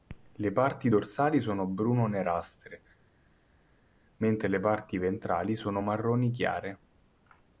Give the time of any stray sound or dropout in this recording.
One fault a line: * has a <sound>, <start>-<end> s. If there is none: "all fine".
all fine